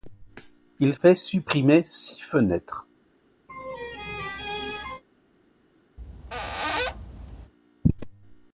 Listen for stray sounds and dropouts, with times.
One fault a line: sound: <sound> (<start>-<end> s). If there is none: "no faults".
sound: laugh (3.5-5.0 s)
sound: squeak (6.0-7.5 s)